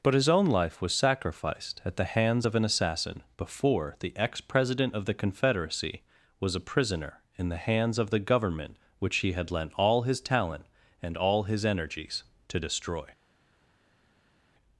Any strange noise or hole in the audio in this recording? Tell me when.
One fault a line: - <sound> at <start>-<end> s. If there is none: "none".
none